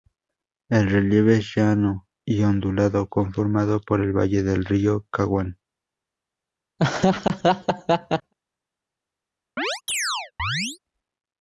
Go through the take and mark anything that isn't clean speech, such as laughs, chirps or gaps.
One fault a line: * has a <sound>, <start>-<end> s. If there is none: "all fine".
* has a laugh, 6.8-8.3 s
* has a chirp, 9.6-10.8 s